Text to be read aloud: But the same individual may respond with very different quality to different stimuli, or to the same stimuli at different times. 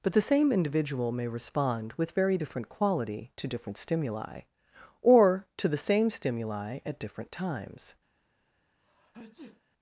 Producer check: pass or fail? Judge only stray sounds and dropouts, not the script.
fail